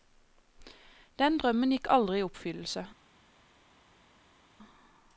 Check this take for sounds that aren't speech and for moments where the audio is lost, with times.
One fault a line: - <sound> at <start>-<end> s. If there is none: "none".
none